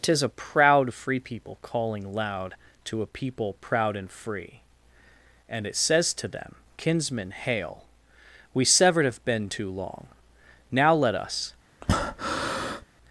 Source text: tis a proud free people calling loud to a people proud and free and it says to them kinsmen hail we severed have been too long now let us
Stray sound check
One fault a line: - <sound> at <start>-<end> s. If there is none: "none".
- breath at 11.8-12.8 s